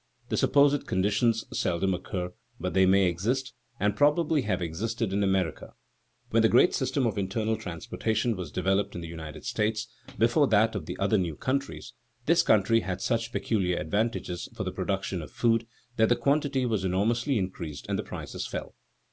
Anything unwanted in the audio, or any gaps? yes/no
no